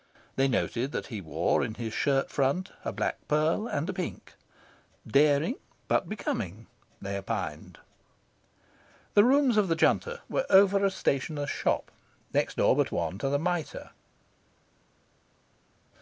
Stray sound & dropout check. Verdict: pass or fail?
pass